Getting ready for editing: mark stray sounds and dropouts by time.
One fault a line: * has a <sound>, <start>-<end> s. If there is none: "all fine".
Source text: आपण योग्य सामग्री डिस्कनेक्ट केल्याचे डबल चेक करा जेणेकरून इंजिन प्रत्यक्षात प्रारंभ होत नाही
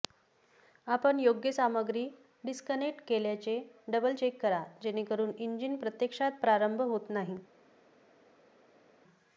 all fine